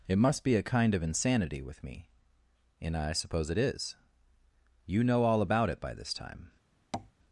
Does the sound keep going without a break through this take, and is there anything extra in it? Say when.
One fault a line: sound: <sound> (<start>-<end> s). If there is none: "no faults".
sound: tap (6.9-7.1 s)